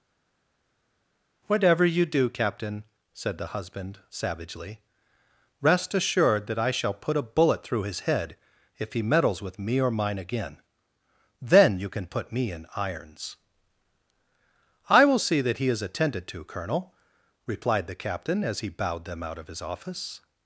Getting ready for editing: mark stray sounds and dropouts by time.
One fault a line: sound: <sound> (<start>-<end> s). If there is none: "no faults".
no faults